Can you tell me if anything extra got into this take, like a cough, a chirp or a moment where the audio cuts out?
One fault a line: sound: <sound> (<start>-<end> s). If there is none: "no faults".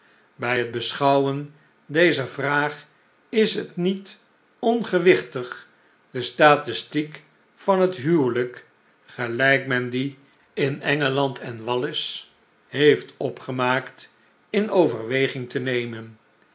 no faults